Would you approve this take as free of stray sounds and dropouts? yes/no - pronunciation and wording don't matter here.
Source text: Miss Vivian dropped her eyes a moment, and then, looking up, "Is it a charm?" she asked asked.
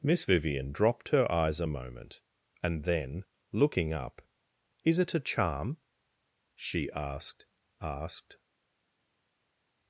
yes